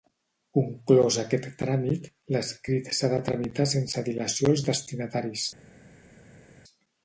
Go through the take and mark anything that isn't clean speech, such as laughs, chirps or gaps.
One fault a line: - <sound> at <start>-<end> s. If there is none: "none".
none